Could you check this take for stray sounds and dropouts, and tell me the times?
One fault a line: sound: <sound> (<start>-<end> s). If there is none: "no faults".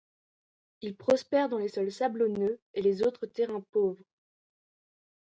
no faults